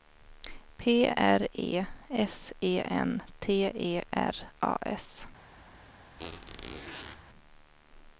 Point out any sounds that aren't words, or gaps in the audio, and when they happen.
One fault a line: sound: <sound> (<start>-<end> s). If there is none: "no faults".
sound: squeak (6.2-7.2 s)